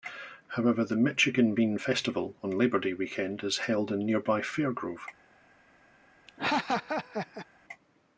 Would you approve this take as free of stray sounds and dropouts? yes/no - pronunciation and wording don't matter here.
no